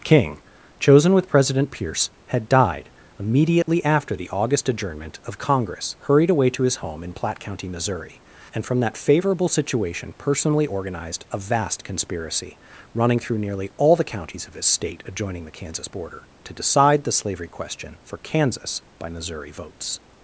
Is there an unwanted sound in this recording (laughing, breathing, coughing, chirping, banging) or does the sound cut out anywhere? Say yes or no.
yes